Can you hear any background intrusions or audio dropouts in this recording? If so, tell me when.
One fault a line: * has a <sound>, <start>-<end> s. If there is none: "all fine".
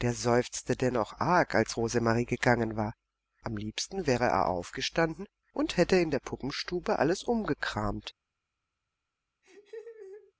* has a laugh, 9.4-10.3 s